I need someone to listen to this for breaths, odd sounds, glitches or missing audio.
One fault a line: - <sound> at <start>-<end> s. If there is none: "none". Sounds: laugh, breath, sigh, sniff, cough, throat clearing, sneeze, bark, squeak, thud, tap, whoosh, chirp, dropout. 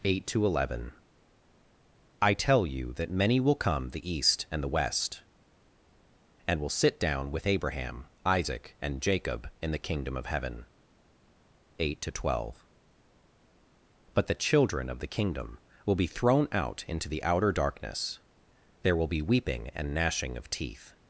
none